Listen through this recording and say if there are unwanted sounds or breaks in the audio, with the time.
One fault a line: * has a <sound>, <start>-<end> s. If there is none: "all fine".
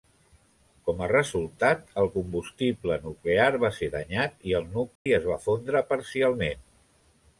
* has a dropout, 5.0-5.1 s